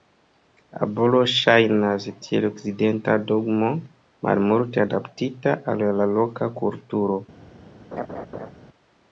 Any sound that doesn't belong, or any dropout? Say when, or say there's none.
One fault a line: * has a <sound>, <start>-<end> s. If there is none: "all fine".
* has a laugh, 7.9-8.5 s